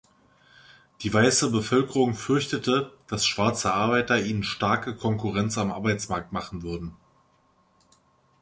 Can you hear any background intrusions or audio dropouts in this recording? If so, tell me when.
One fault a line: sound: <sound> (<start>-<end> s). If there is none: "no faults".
no faults